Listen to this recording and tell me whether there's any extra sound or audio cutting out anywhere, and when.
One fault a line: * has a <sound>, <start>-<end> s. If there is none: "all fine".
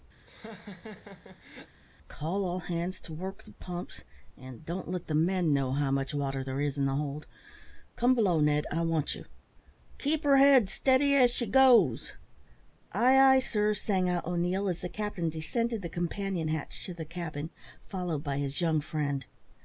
* has a laugh, 0.2-1.7 s